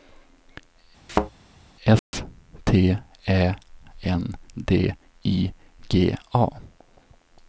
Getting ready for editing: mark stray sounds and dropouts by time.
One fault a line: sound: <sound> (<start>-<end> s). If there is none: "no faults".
sound: thud (1.1-1.3 s)
sound: dropout (2.0-2.1 s)